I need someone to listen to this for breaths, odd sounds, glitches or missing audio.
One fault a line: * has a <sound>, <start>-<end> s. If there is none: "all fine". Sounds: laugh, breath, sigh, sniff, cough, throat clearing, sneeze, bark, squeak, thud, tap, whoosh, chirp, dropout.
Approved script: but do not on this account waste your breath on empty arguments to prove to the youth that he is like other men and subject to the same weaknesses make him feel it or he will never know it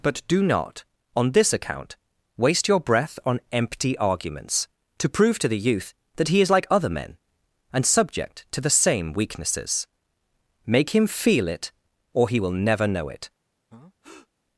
* has a breath, 13.7-14.3 s